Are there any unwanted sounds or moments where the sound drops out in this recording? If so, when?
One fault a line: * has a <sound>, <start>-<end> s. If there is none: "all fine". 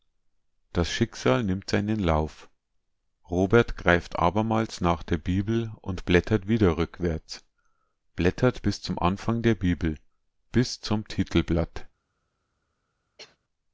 * has a cough, 13.2-13.4 s